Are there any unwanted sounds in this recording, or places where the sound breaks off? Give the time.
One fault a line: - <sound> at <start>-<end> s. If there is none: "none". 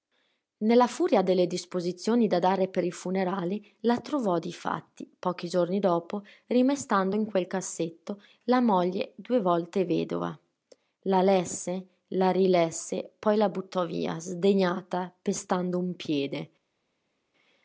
none